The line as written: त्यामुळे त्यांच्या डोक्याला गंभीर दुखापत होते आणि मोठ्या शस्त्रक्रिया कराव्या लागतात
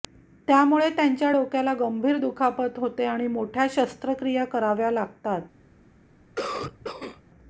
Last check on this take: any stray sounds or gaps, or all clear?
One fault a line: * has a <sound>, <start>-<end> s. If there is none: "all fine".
* has a cough, 6.4-7.2 s